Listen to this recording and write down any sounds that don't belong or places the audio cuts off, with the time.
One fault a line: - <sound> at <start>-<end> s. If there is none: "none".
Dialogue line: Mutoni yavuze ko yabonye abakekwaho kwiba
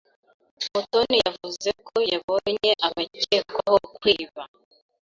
none